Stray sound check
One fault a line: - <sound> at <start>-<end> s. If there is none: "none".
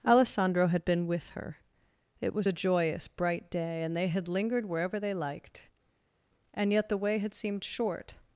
none